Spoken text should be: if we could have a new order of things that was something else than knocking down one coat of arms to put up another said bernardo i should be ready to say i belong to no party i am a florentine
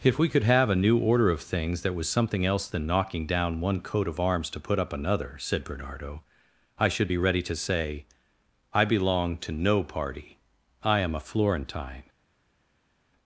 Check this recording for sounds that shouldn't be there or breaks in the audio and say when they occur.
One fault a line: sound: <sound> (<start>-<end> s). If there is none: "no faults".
no faults